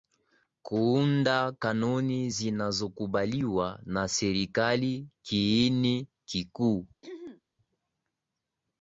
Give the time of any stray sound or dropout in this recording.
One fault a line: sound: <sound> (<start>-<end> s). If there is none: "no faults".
sound: throat clearing (7.0-7.4 s)